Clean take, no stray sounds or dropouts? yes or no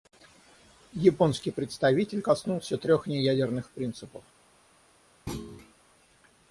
no